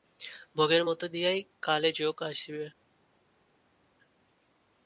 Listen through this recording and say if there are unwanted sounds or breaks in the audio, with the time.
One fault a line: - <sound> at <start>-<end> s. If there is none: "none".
none